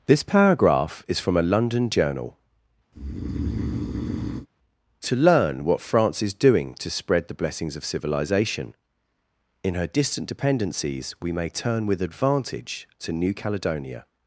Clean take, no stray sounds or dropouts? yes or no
no